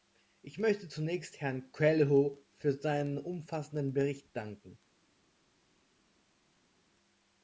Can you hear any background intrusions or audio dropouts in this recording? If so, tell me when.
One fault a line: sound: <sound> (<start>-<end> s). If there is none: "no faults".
no faults